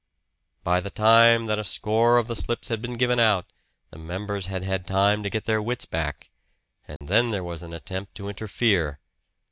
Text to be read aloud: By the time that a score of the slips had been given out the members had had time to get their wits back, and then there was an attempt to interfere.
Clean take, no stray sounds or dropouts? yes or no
no